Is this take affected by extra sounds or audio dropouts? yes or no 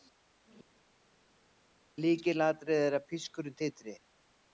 no